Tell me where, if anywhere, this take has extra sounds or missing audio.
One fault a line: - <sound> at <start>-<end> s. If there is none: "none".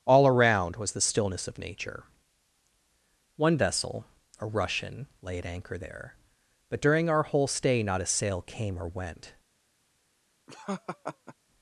- laugh at 10.5-11.3 s